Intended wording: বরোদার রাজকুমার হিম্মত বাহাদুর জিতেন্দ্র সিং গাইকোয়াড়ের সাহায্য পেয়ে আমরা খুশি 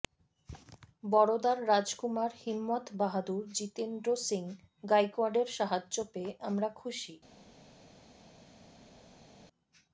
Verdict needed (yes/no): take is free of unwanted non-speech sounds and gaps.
yes